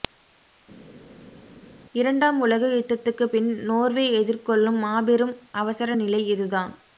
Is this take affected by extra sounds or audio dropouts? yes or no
no